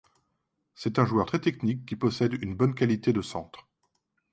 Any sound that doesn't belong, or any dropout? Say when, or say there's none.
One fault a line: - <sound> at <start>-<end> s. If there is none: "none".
none